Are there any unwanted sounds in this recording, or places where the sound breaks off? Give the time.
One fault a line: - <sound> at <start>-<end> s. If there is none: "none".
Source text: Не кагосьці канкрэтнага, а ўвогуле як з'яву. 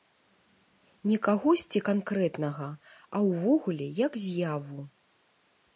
none